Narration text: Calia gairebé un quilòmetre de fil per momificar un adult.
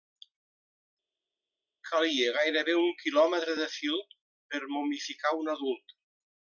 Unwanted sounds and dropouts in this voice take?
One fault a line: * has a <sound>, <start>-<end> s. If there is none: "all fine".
all fine